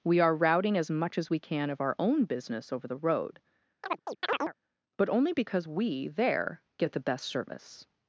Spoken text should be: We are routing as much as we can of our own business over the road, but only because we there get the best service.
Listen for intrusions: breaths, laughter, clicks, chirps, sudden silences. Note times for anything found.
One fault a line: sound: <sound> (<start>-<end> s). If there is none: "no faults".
sound: chirp (3.8-4.5 s)